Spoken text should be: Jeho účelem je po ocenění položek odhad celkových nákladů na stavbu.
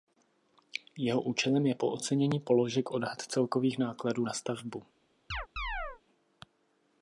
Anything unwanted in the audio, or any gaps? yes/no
yes